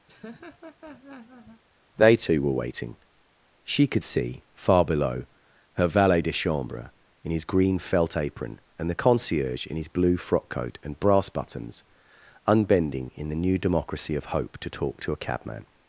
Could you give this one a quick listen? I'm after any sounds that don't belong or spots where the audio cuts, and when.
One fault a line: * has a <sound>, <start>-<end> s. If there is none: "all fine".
* has a laugh, 0.1-1.6 s